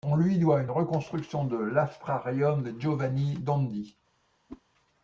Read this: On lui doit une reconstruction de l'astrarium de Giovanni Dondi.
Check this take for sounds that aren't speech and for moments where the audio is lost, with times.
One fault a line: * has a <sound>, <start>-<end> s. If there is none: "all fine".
* has a whoosh, 4.5-4.6 s